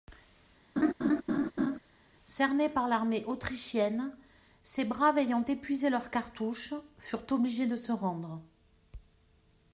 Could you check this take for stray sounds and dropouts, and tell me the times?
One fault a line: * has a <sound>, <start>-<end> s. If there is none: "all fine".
* has a laugh, 0.8-1.8 s